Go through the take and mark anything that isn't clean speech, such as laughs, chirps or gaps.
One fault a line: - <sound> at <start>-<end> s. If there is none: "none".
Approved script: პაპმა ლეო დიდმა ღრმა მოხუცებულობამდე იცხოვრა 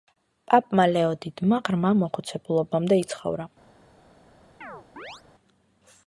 - chirp at 4.6-5.2 s